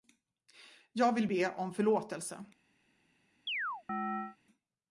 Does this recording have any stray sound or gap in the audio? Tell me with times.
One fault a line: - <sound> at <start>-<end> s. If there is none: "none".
- chirp at 3.5-4.4 s